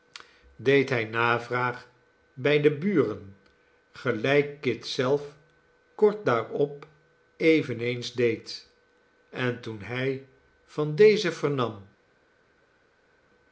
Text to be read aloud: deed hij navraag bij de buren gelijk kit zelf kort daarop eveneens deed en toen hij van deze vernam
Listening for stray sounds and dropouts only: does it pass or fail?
pass